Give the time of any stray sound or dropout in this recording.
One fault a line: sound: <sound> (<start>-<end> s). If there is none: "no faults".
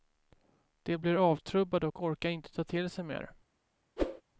sound: whoosh (4.0-4.2 s)